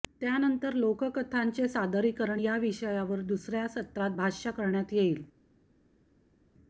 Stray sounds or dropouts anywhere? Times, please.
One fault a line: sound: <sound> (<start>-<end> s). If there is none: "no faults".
no faults